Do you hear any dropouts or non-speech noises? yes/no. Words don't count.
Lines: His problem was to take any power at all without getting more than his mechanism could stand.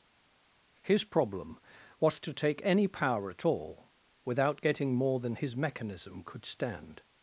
no